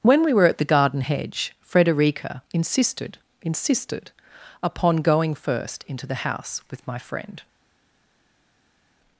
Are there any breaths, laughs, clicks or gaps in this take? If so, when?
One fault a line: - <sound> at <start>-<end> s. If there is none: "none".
none